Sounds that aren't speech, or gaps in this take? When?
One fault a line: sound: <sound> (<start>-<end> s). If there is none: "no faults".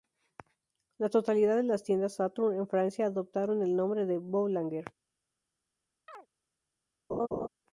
sound: chirp (6.1-6.3 s)
sound: laugh (7.1-7.5 s)